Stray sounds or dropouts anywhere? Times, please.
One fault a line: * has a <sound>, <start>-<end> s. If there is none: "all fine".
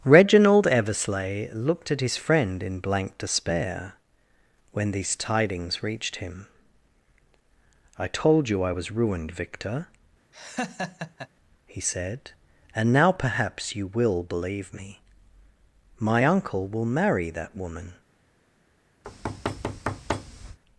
* has a laugh, 10.3-11.3 s
* has a thud, 19.0-20.6 s